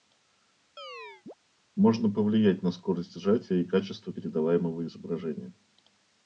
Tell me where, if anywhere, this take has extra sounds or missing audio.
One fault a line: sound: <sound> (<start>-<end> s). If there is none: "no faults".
sound: chirp (0.8-1.3 s)